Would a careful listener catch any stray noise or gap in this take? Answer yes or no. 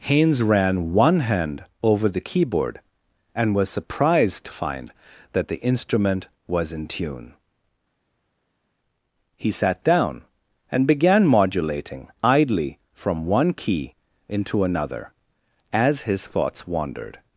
no